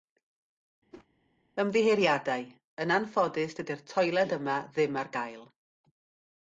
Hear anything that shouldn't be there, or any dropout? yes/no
yes